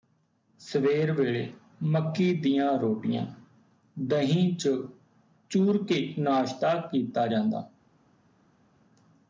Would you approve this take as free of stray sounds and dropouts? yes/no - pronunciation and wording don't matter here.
yes